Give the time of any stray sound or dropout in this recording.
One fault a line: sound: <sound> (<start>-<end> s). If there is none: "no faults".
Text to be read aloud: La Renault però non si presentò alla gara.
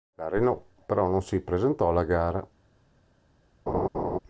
sound: laugh (3.7-4.2 s)